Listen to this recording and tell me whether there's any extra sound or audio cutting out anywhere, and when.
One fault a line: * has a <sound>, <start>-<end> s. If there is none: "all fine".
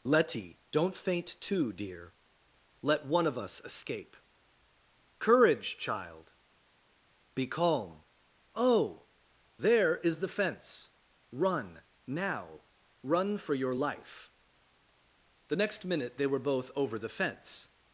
all fine